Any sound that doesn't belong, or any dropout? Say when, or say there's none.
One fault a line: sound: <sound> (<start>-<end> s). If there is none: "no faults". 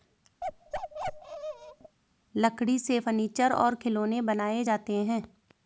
sound: bark (0.4-2.0 s)